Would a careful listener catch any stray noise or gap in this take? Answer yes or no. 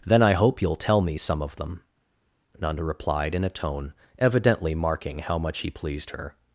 no